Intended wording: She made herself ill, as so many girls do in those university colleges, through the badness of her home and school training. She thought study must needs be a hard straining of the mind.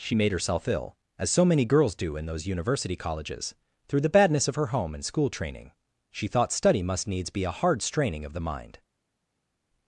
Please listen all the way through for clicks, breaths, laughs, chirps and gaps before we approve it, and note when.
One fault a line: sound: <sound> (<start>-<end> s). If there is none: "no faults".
no faults